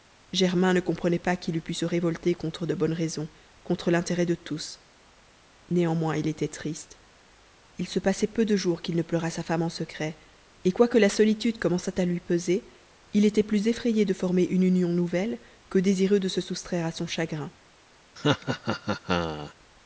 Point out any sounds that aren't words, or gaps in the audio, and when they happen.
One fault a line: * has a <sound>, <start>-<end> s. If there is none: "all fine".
* has a laugh, 18.2-19.5 s